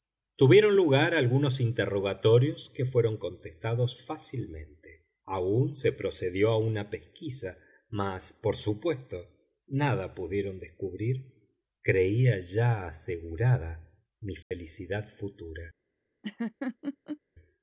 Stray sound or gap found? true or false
true